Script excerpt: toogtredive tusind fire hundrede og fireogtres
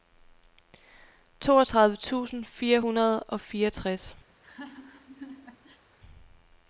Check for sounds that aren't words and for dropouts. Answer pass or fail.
fail